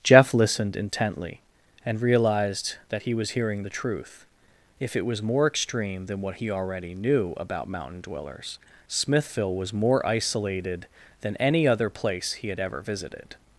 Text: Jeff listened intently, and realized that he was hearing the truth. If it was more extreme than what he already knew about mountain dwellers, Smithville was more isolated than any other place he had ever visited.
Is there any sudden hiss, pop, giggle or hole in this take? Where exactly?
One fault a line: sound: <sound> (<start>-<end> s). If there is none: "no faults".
no faults